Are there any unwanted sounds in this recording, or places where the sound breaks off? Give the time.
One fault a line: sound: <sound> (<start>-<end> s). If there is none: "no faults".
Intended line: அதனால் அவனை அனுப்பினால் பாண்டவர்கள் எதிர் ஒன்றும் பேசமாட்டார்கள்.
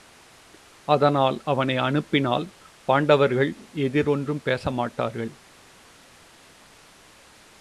no faults